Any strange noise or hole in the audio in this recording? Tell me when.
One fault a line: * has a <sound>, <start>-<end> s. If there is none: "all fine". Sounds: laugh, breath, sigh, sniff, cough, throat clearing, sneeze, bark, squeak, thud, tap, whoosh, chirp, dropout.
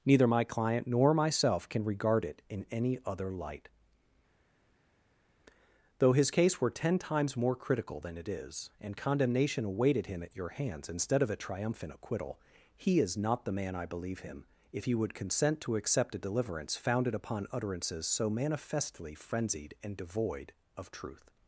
all fine